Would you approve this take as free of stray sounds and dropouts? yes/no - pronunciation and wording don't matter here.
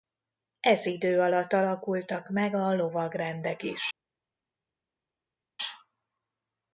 yes